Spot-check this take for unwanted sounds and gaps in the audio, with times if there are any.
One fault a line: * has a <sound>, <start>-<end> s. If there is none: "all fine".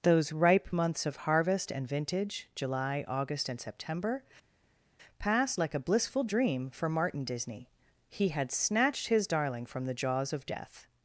all fine